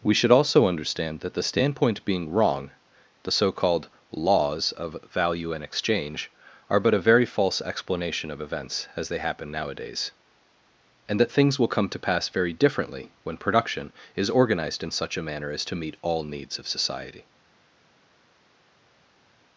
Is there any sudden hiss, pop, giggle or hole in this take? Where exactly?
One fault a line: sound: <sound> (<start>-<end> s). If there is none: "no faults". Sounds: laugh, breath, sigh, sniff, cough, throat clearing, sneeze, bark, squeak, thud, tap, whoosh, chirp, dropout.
no faults